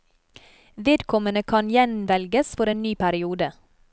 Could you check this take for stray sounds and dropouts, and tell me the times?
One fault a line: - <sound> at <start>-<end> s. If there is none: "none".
none